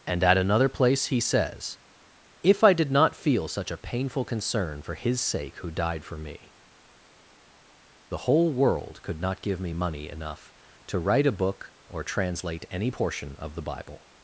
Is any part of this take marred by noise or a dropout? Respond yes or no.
no